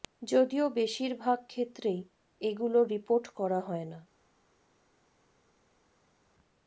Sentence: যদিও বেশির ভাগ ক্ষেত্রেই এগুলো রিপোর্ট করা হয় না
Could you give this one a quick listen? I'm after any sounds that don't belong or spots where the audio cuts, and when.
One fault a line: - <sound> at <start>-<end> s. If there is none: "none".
none